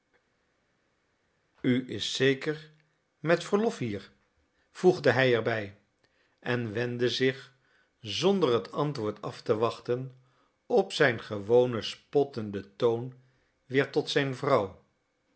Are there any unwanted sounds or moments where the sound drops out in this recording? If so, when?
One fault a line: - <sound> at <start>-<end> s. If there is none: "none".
none